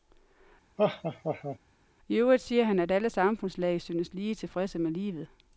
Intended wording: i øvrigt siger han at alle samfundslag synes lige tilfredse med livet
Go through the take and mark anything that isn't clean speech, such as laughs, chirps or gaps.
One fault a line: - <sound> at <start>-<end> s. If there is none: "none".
- laugh at 0.8-1.6 s